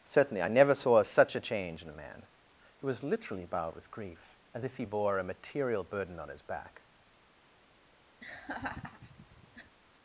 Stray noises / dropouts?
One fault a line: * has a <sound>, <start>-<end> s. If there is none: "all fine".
* has a laugh, 8.2-9.8 s